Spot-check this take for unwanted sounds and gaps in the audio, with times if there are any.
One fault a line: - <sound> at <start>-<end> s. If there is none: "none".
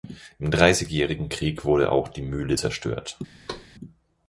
- thud at 3.5-3.7 s